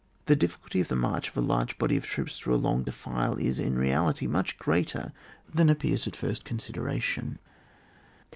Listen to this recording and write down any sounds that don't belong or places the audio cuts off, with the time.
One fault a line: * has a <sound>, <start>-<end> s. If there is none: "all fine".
all fine